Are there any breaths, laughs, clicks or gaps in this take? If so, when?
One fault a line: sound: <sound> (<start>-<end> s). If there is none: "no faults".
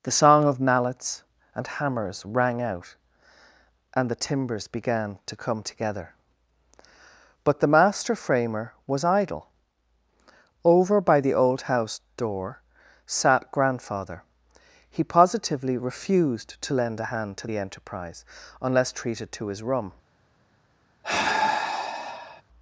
sound: sigh (21.0-22.4 s)